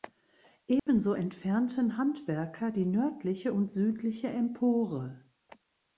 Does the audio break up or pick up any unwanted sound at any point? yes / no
yes